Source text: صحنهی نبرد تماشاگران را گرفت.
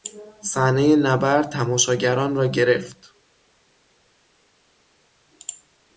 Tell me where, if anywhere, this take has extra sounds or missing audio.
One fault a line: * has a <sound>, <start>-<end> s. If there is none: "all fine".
all fine